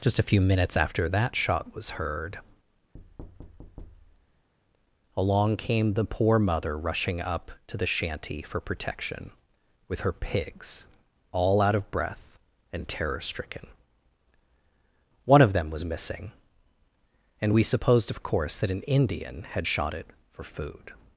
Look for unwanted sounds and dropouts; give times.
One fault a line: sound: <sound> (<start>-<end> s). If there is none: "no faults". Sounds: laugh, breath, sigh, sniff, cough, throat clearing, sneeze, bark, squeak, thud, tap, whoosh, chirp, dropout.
sound: thud (2.9-4.5 s)